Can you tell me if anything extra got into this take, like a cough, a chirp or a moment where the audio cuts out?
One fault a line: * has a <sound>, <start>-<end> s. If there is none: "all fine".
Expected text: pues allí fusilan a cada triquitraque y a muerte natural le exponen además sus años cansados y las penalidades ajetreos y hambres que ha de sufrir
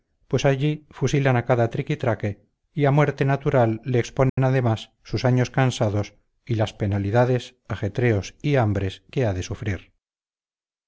* has a dropout, 4.3-4.4 s